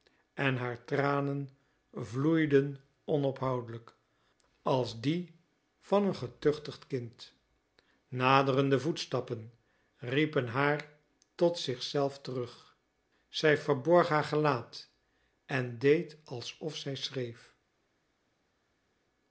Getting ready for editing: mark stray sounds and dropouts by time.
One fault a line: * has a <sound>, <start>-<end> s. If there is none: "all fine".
all fine